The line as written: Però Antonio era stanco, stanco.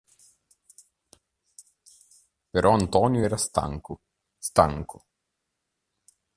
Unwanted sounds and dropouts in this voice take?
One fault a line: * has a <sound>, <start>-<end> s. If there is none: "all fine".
all fine